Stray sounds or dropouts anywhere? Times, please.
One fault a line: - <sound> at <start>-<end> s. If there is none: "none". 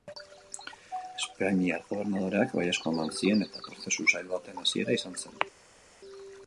none